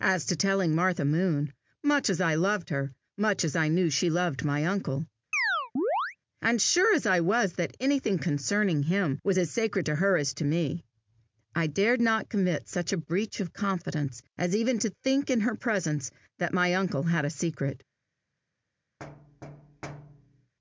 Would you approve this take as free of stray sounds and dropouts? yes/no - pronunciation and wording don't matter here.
no